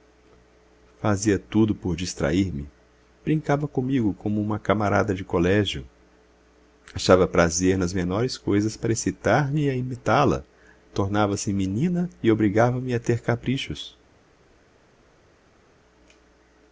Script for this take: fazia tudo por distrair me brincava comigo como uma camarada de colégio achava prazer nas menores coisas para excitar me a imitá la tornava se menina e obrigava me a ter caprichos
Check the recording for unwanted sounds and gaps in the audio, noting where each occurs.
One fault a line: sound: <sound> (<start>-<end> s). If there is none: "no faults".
no faults